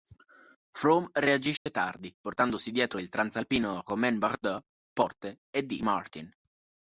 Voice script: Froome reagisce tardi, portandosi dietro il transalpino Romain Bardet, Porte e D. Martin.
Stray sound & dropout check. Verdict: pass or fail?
fail